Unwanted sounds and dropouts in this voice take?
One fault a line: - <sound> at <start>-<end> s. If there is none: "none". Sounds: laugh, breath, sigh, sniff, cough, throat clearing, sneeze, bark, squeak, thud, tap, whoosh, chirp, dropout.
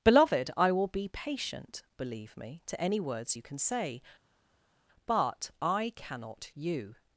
none